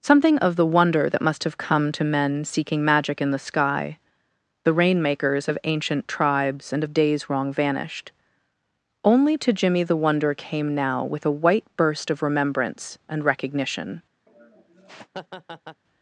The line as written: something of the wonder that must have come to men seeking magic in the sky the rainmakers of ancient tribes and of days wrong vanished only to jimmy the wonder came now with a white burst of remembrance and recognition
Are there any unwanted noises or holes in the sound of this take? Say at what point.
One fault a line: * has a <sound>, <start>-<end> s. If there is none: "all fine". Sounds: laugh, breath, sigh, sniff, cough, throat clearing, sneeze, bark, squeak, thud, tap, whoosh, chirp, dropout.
* has a laugh, 14.3-15.8 s